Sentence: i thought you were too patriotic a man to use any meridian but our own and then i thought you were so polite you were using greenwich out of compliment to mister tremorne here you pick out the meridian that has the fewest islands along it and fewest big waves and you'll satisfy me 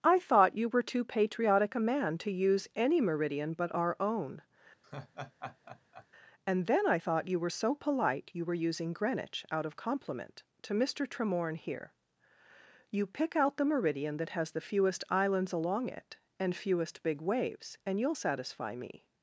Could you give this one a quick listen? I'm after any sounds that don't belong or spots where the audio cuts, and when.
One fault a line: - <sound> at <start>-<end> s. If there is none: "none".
- laugh at 4.8-6.1 s